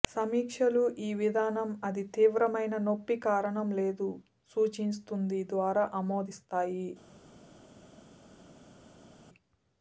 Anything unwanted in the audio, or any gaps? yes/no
no